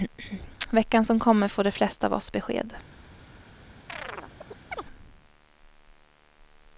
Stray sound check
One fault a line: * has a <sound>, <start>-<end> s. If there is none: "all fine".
* has a chirp, 3.9-4.8 s